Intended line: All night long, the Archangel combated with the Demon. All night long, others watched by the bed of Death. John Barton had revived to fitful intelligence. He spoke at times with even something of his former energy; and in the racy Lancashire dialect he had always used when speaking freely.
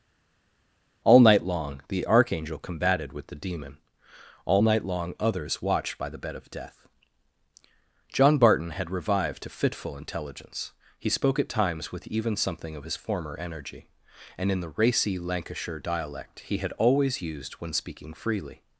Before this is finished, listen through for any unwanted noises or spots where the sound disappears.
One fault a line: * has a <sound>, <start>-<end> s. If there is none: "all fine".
all fine